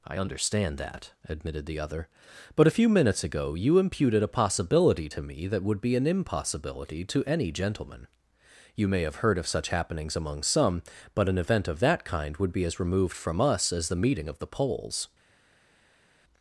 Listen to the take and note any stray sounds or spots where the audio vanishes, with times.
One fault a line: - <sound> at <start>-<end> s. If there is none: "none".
none